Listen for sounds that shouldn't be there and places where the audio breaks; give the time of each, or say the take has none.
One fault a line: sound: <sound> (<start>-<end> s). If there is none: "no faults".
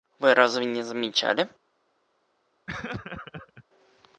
sound: laugh (2.7-3.6 s)